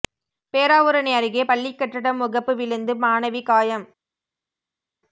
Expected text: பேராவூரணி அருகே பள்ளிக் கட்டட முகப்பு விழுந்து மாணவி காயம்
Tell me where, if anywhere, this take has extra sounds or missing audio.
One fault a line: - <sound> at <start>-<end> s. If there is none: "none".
none